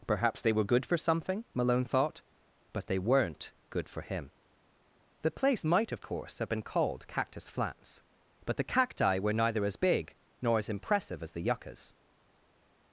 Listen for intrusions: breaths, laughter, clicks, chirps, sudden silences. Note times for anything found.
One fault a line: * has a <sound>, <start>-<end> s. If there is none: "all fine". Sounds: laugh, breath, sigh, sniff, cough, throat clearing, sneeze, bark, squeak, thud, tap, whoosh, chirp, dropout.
all fine